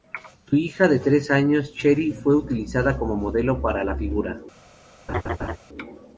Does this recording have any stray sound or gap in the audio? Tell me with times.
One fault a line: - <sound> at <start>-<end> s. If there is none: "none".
- laugh at 5.1-5.6 s